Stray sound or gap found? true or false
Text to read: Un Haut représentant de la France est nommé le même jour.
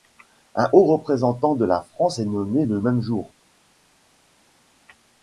false